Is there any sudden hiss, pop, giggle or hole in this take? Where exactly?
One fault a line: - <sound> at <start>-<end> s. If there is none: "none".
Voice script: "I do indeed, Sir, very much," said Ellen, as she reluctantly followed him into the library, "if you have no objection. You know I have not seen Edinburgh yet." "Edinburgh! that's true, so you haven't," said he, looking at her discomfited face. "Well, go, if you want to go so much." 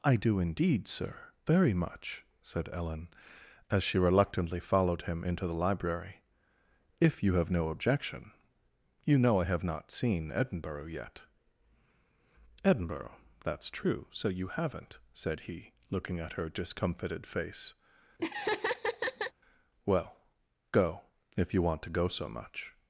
- laugh at 18.2-19.3 s